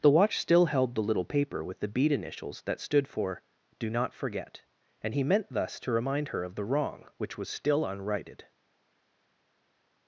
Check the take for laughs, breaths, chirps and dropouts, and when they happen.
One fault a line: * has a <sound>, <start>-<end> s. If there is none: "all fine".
all fine